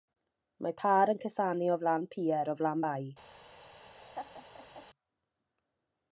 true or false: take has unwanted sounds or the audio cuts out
true